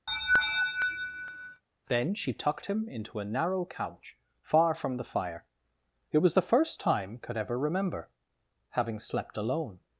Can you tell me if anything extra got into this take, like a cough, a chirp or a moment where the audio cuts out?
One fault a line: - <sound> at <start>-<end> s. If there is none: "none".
- laugh at 0.1-1.6 s